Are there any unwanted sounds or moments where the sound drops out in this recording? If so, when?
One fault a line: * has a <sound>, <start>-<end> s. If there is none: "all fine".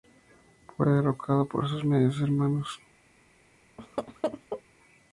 * has a laugh, 3.8-4.6 s